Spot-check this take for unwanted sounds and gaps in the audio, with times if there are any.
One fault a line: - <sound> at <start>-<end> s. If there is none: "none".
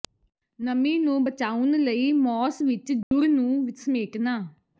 - dropout at 3.0-3.1 s